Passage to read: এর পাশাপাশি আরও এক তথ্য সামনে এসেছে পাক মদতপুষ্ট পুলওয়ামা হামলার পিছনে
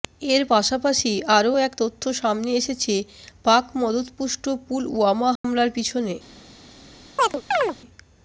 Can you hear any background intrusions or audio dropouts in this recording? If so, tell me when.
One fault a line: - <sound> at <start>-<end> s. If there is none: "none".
- dropout at 5.4-5.4 s
- chirp at 7.2-7.8 s